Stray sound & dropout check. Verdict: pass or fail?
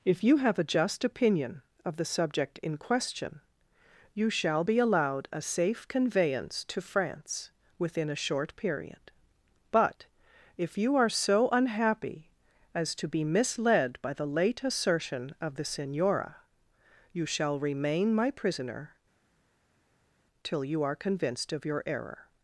pass